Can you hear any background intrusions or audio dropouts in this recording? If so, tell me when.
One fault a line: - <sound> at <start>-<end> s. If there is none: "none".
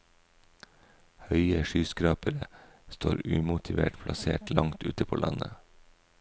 none